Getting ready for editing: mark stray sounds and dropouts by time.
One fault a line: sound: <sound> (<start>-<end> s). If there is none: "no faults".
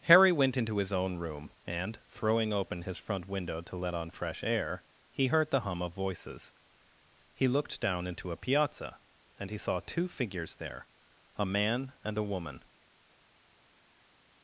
no faults